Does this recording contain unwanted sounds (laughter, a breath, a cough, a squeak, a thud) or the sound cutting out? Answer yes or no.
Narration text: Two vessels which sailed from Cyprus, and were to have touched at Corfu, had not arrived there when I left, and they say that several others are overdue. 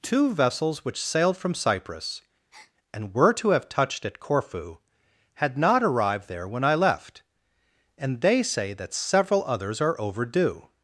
yes